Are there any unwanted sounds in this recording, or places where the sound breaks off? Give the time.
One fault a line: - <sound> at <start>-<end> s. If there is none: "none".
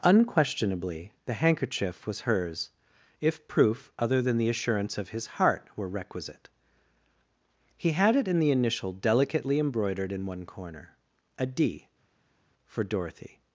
none